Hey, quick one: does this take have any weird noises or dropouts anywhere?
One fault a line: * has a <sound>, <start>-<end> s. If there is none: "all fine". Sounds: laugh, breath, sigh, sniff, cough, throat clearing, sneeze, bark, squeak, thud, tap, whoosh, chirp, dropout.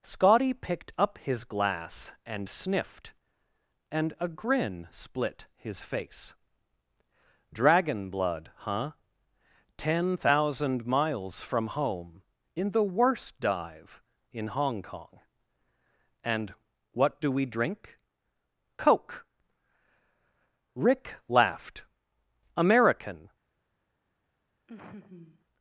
* has a laugh, 24.7-25.5 s